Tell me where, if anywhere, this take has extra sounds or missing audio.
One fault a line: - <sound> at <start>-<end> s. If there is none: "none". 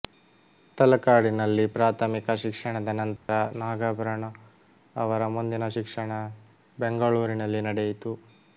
- dropout at 3.2-3.3 s